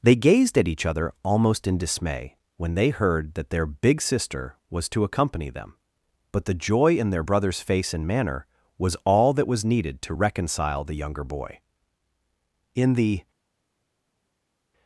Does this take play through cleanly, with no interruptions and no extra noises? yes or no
yes